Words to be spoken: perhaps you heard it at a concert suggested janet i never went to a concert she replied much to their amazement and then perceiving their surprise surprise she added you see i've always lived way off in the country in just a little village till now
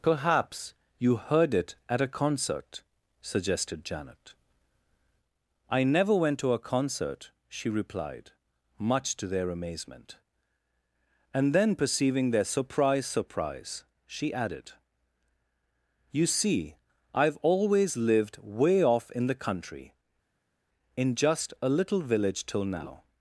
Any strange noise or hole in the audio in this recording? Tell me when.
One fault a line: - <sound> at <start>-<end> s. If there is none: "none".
none